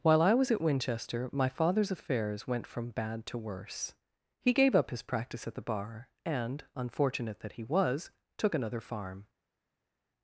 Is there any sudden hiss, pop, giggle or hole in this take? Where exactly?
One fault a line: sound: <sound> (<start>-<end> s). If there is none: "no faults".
no faults